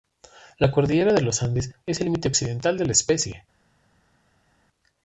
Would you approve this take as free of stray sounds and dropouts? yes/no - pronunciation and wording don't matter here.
yes